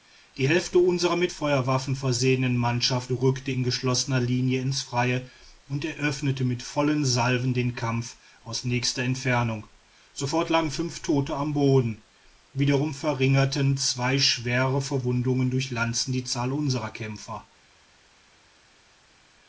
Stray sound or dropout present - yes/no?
no